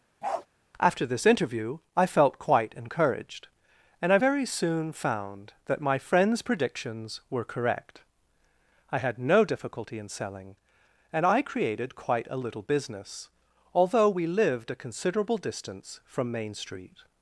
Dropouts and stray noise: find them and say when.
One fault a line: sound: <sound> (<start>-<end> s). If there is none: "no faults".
sound: bark (0.2-0.5 s)